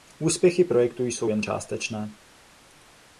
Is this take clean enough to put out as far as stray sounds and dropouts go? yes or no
yes